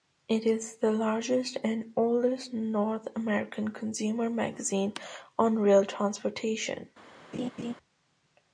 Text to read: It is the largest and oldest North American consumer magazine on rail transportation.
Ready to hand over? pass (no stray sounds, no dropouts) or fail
fail